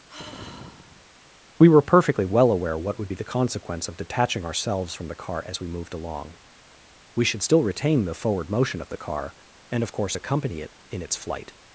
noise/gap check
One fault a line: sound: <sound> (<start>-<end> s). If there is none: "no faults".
sound: sigh (0.1-1.2 s)